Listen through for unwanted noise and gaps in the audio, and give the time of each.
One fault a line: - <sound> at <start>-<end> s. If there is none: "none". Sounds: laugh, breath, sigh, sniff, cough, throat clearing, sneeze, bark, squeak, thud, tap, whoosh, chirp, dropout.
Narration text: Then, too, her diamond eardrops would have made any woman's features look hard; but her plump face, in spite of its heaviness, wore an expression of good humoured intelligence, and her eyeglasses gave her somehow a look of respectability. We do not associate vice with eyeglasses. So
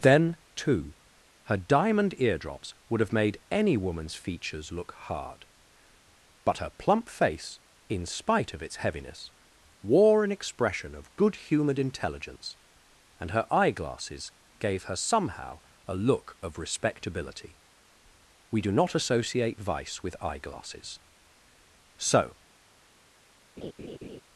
- laugh at 23.6-24.2 s